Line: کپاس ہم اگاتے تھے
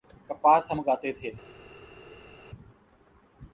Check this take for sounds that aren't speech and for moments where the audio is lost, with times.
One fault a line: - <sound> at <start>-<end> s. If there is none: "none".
none